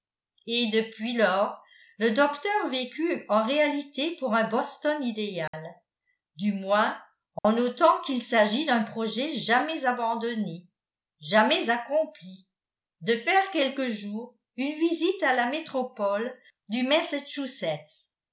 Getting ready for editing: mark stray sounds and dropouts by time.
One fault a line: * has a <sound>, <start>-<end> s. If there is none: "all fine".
* has a dropout, 5.5-5.5 s
* has a dropout, 7.4-7.4 s